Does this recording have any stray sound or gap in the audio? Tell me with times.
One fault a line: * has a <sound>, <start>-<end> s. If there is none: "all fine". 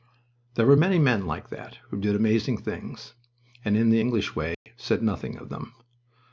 * has a dropout, 4.5-4.7 s